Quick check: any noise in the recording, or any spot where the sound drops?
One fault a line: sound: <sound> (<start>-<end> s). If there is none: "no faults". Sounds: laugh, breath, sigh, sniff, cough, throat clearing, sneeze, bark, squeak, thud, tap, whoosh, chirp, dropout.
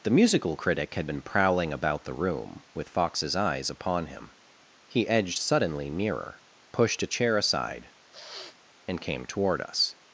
sound: sniff (8.1-8.6 s)